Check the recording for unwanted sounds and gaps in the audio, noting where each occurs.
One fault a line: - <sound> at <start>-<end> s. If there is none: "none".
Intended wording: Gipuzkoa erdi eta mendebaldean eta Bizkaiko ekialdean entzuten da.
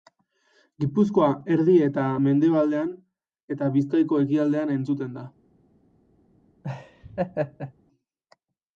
- laugh at 6.6-7.7 s